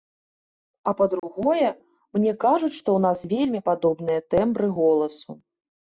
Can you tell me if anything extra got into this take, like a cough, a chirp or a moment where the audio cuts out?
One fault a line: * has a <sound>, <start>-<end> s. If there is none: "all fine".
* has a dropout, 1.2-1.2 s